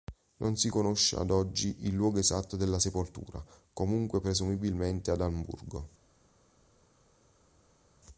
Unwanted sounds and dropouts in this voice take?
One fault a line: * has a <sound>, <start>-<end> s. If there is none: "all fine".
all fine